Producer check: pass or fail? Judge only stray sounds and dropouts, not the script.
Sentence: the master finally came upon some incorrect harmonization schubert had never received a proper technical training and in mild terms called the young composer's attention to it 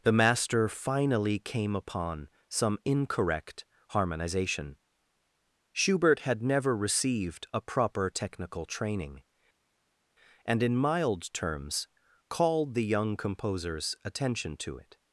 pass